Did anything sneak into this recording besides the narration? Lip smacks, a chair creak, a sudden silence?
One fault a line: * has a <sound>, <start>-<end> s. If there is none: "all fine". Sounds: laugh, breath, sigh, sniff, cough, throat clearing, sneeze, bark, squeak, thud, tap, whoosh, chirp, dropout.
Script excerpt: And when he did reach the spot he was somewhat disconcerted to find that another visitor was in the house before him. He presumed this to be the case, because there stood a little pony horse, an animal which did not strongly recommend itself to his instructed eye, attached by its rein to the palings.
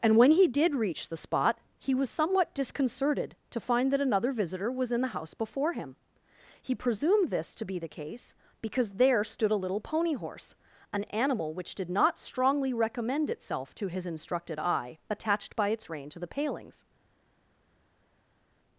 all fine